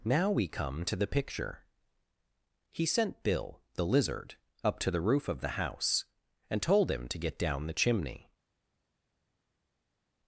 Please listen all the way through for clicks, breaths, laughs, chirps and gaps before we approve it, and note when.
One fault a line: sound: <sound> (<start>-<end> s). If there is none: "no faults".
no faults